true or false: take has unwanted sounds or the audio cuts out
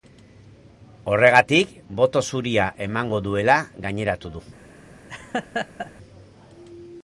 true